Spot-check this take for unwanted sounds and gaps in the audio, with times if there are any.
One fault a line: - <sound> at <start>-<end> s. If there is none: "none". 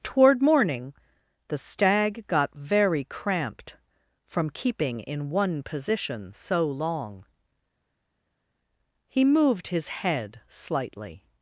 none